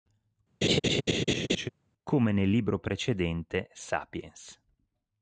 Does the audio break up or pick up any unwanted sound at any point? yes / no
yes